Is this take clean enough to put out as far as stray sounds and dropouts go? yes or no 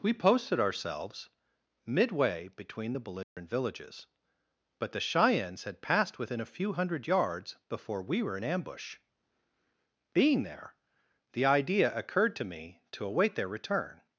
no